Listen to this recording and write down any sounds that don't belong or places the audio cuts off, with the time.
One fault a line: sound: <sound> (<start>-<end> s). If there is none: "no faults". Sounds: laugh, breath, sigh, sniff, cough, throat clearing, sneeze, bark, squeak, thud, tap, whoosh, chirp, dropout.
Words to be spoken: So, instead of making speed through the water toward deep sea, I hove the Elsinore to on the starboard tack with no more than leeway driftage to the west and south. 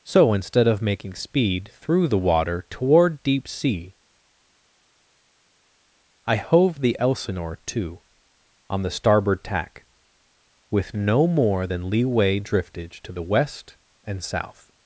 no faults